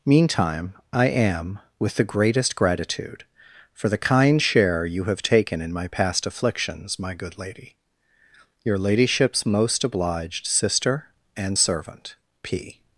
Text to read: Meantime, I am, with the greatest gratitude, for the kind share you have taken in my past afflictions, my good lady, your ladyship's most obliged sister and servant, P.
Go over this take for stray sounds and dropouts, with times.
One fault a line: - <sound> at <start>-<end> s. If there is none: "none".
none